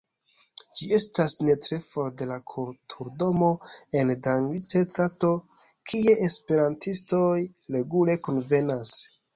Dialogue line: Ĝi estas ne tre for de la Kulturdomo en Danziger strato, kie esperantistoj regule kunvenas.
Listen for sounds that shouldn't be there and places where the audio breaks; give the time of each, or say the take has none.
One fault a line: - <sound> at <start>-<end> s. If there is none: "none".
none